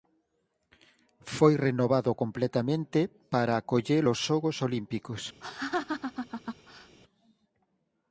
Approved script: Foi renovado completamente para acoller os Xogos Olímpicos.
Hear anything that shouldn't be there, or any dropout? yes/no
yes